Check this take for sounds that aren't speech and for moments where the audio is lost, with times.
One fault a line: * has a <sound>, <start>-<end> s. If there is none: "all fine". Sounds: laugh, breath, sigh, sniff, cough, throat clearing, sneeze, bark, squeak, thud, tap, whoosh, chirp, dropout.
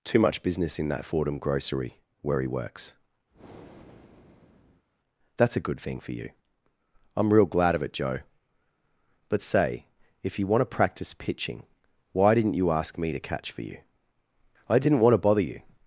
* has a breath, 3.3-4.9 s